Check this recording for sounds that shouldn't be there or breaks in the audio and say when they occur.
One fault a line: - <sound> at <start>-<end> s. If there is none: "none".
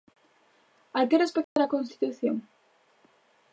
- dropout at 1.4-1.6 s